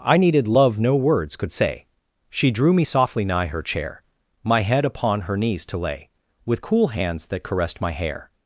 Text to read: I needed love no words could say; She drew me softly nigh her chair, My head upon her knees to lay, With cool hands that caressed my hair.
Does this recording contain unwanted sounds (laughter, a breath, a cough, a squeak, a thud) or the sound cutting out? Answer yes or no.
no